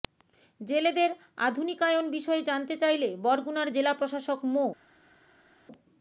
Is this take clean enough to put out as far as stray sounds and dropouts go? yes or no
yes